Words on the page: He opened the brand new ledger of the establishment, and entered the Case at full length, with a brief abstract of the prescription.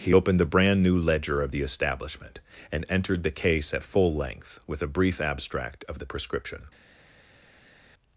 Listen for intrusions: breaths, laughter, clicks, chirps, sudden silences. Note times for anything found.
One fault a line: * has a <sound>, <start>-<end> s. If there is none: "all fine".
all fine